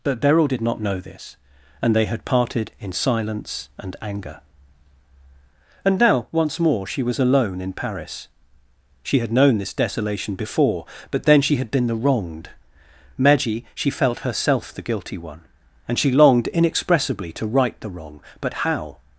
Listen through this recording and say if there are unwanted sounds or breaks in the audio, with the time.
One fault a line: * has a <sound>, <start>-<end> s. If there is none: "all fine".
all fine